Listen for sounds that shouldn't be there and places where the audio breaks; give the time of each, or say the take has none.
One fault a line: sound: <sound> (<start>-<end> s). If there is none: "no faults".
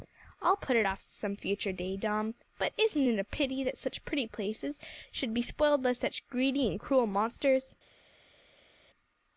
no faults